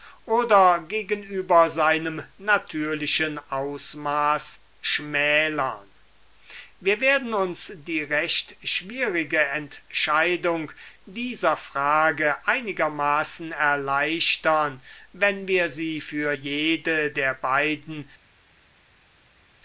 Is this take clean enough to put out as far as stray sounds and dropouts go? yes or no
yes